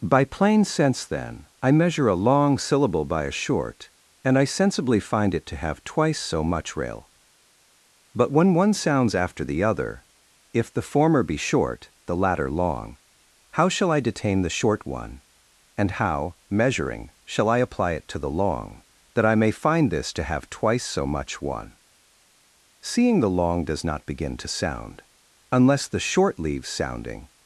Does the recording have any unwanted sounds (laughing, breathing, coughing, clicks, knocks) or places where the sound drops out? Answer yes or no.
no